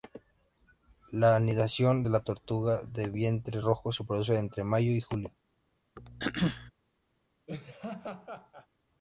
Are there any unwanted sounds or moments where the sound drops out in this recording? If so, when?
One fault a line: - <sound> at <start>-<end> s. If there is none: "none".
- throat clearing at 6.0-6.7 s
- laugh at 7.5-8.7 s